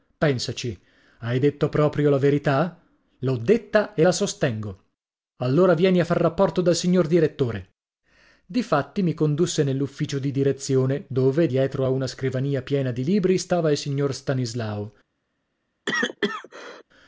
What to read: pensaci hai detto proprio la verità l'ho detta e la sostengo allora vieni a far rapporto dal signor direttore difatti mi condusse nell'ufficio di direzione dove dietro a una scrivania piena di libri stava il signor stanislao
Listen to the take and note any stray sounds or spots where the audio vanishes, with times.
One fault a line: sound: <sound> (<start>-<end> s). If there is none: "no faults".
sound: cough (15.9-16.8 s)